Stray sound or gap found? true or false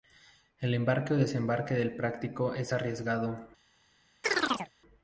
true